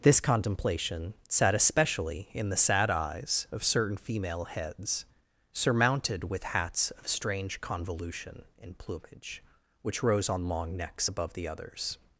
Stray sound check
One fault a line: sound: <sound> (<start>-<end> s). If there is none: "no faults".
no faults